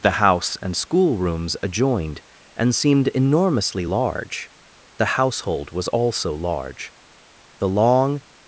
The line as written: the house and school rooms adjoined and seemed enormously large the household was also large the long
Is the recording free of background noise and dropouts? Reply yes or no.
yes